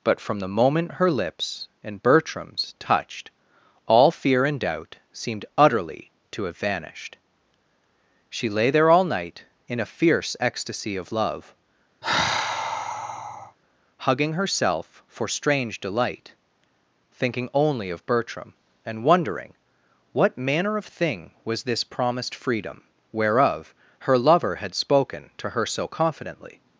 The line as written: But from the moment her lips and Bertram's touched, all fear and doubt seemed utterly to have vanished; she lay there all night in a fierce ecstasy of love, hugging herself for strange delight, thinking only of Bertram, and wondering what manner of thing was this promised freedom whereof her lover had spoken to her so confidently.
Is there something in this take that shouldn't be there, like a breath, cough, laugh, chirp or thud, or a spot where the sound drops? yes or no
yes